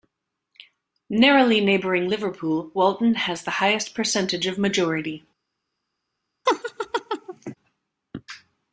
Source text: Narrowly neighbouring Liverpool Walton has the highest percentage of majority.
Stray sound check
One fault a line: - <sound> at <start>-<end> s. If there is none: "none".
- laugh at 6.5-7.6 s